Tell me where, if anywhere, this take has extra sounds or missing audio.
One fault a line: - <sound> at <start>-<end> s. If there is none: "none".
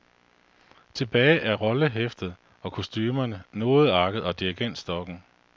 none